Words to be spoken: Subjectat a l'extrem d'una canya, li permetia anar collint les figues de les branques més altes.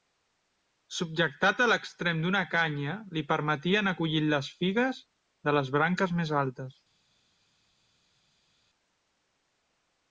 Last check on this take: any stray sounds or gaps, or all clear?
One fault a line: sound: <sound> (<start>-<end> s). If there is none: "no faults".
no faults